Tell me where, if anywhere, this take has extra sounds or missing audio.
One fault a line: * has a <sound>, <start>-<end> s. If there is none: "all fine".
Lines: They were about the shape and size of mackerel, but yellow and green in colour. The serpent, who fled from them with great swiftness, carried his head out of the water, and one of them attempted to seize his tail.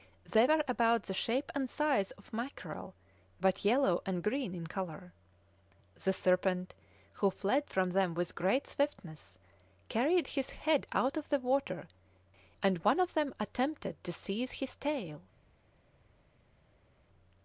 all fine